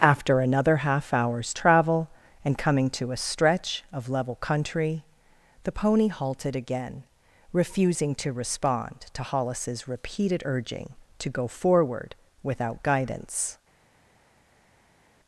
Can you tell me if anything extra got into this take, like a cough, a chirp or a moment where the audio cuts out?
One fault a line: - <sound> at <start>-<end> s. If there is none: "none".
none